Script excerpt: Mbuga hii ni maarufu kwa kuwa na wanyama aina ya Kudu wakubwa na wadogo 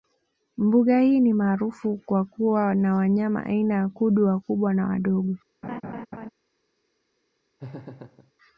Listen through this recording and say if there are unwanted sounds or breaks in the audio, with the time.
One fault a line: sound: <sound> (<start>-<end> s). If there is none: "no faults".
sound: laugh (5.6-6.3 s)
sound: laugh (7.6-8.3 s)